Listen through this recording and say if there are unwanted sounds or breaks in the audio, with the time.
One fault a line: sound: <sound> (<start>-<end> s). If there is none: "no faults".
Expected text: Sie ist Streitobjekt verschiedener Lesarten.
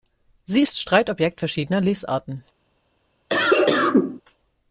sound: cough (3.3-4.2 s)